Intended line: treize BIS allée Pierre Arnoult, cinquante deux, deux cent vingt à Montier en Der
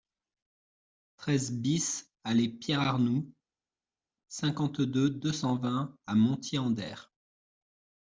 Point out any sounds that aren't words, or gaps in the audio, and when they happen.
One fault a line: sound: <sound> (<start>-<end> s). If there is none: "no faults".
no faults